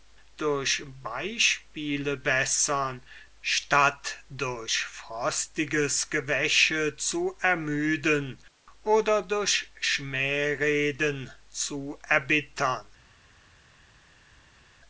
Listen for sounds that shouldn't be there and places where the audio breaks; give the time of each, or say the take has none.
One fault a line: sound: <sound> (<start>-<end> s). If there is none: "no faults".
no faults